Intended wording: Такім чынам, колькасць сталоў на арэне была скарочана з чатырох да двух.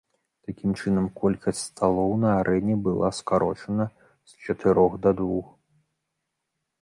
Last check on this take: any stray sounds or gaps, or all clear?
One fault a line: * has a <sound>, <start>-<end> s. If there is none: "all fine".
all fine